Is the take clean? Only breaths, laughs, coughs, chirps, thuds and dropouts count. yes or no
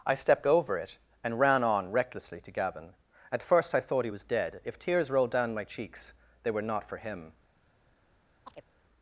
no